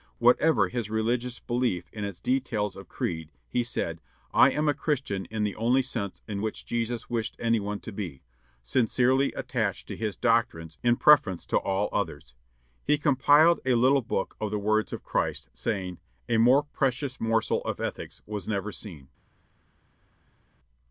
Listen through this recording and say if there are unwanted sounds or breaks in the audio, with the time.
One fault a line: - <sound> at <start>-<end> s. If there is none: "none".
none